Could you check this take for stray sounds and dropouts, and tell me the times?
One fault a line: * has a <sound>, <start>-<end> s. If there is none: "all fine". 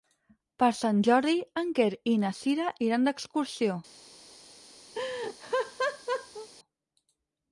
* has a laugh, 4.9-6.5 s